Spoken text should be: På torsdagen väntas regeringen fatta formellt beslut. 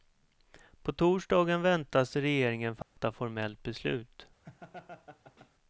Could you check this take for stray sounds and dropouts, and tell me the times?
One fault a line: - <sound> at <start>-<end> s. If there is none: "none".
- dropout at 2.8-3.0 s
- laugh at 4.4-5.5 s